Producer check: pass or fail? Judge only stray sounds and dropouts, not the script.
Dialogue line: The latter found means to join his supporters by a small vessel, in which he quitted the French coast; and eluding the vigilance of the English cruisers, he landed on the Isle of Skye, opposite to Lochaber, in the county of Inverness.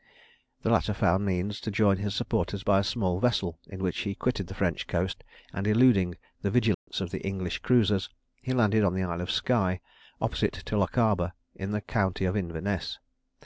fail